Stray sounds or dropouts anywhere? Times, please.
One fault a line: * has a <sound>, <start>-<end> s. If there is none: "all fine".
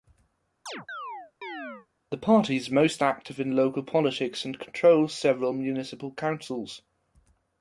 * has a chirp, 0.7-1.9 s